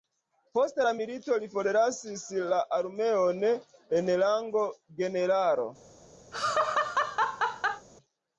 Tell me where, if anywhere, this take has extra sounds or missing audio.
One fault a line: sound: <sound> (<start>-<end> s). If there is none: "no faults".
sound: laugh (6.3-7.9 s)